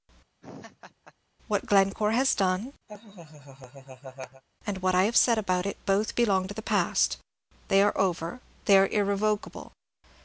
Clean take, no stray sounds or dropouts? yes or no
no